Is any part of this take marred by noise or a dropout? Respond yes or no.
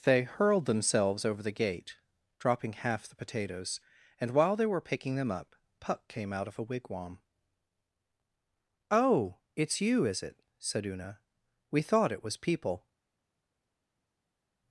no